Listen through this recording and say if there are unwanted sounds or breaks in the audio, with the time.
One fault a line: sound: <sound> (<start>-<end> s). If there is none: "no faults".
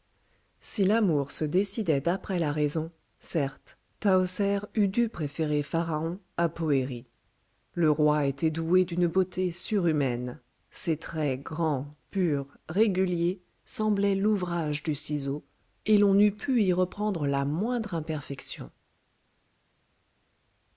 no faults